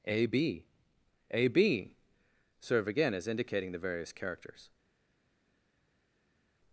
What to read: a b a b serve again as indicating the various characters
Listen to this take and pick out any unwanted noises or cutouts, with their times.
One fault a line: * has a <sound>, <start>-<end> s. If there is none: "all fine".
all fine